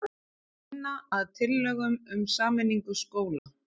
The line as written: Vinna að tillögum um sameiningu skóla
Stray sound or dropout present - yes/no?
yes